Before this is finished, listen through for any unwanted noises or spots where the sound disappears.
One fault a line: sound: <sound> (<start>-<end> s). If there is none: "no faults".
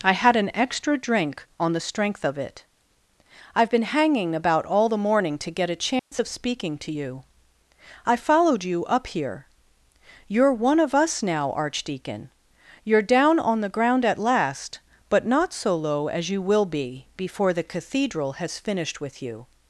sound: dropout (6.0-6.1 s)